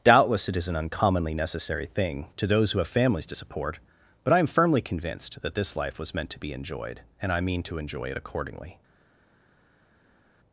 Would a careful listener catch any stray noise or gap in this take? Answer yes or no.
no